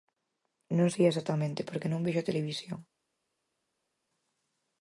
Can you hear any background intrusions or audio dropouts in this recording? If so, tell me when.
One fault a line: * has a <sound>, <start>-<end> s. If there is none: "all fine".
all fine